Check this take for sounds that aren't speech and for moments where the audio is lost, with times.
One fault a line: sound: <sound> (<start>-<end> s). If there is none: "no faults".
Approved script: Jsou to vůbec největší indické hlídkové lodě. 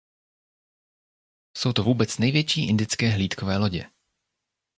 no faults